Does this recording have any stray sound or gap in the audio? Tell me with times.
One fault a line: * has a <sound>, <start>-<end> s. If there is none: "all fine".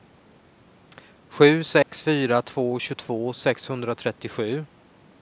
* has a dropout, 1.8-1.9 s